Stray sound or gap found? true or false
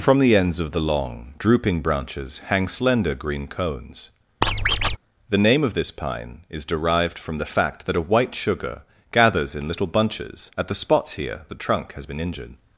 true